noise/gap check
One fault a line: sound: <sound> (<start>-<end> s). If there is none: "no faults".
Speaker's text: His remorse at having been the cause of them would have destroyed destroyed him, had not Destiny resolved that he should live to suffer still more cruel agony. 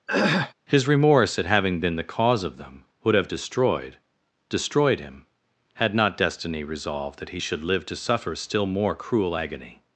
sound: throat clearing (0.1-0.5 s)